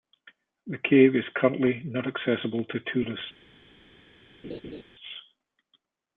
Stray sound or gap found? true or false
true